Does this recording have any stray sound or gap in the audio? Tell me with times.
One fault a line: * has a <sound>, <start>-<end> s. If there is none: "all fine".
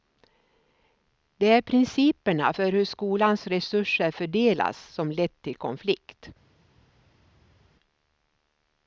all fine